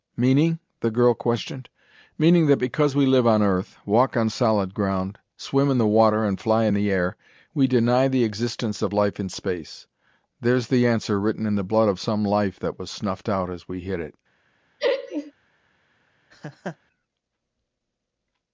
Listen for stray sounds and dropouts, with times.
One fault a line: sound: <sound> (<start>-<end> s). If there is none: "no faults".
sound: laugh (14.8-15.3 s)
sound: laugh (16.3-16.8 s)